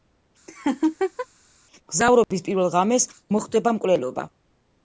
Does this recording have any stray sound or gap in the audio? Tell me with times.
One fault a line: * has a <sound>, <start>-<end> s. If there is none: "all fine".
* has a laugh, 0.5-1.3 s
* has a dropout, 2.2-2.3 s